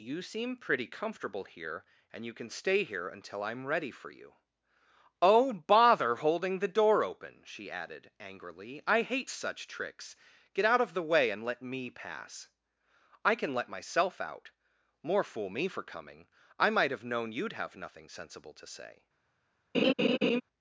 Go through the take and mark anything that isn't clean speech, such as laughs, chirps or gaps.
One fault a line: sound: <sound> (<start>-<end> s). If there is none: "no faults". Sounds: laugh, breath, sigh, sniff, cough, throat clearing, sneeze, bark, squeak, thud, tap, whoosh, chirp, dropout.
sound: laugh (19.7-20.4 s)